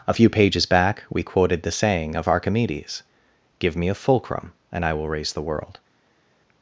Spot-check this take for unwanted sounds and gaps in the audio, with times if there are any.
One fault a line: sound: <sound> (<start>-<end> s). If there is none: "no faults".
no faults